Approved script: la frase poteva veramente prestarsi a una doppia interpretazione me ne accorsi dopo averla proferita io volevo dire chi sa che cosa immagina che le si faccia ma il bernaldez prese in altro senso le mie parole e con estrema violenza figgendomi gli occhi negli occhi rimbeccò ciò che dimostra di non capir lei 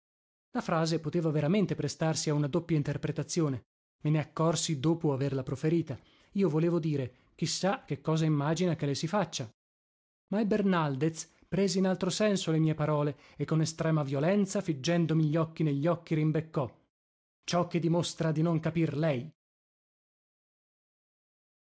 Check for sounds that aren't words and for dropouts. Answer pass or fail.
pass